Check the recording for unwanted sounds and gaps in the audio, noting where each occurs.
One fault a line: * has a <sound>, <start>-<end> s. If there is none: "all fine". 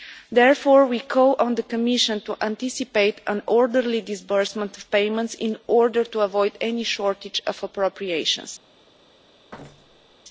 * has a thud, 9.5-10.2 s